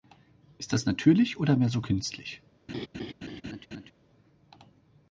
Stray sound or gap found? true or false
true